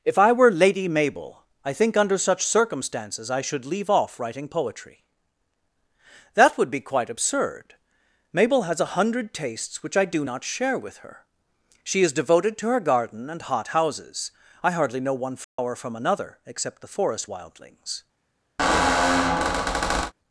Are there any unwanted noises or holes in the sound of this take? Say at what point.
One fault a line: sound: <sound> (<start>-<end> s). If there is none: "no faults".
sound: dropout (15.4-15.6 s)
sound: squeak (18.6-20.1 s)